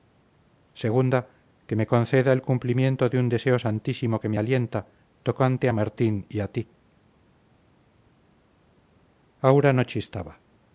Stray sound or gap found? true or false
false